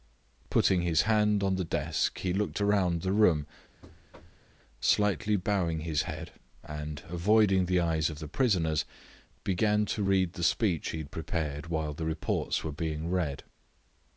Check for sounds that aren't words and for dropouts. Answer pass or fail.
fail